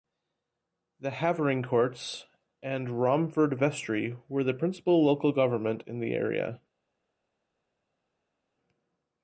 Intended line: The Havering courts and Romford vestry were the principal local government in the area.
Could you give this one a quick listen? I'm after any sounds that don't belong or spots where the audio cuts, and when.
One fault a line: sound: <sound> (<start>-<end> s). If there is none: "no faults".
no faults